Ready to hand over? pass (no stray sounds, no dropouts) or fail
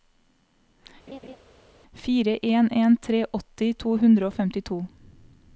fail